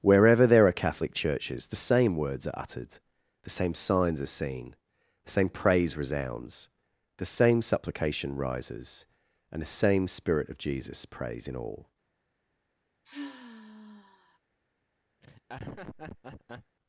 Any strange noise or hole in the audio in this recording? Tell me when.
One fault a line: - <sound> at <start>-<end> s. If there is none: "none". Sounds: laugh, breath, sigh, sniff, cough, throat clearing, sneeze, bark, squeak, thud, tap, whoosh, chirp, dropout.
- sigh at 13.0-14.4 s
- laugh at 15.2-16.8 s